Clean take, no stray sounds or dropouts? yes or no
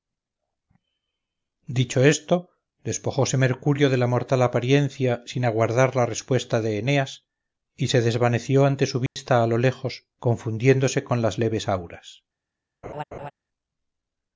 no